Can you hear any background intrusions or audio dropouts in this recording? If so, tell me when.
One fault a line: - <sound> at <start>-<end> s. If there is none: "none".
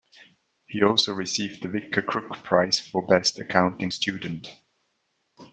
none